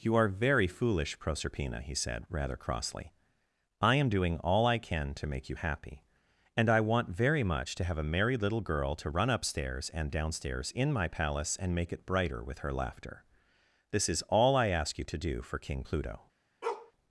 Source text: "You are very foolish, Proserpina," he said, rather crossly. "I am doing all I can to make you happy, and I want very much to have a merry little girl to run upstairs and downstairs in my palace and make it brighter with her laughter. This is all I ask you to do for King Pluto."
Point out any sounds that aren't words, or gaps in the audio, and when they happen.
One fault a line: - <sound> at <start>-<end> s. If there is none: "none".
- bark at 16.6-16.9 s